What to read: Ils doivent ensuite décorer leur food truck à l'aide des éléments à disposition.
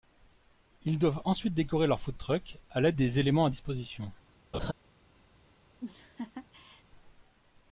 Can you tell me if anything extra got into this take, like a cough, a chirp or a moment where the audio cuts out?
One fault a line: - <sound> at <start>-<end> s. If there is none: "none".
- laugh at 4.5-4.7 s
- laugh at 5.8-6.8 s